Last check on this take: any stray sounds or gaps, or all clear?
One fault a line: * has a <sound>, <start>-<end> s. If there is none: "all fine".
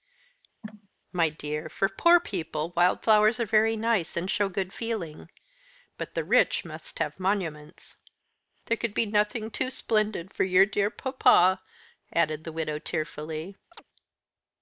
* has a cough, 0.6-0.9 s
* has a chirp, 13.7-13.8 s